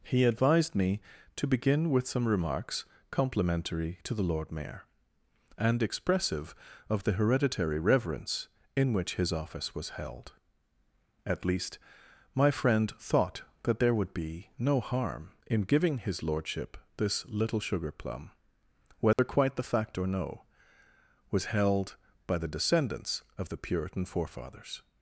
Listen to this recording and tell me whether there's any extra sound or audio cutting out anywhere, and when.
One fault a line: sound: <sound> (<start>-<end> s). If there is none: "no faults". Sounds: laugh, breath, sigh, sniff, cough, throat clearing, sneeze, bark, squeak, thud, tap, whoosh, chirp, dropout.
sound: dropout (19.1-19.2 s)